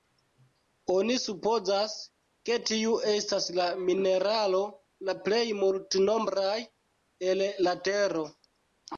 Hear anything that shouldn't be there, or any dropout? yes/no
no